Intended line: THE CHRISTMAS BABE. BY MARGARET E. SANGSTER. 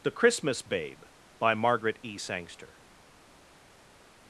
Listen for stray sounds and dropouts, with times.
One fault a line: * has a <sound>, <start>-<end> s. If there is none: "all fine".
all fine